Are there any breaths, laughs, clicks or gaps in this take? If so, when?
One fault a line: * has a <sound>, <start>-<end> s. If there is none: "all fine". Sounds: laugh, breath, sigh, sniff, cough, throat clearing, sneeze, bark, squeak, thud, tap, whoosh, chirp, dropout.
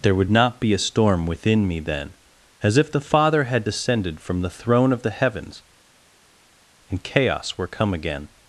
all fine